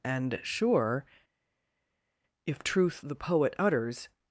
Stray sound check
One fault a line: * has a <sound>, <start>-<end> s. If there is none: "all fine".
all fine